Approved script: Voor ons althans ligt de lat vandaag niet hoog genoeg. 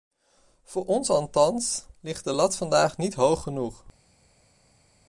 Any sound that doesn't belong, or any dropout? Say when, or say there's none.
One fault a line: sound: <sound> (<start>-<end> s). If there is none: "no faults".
no faults